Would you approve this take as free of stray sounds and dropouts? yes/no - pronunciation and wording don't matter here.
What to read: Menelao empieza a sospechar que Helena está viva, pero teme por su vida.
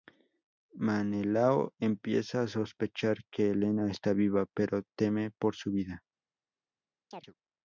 no